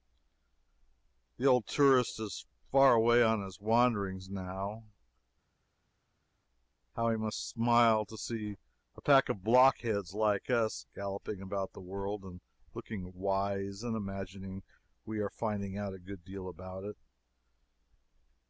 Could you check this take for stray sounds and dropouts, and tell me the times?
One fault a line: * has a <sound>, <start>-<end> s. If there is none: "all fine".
all fine